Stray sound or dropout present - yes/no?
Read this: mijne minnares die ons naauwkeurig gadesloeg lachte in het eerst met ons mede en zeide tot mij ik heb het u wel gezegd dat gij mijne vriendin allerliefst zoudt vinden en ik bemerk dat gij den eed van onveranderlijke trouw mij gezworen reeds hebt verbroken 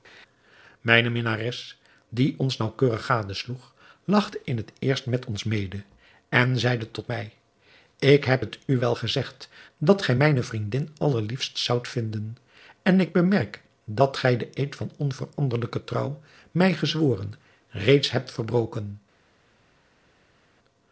no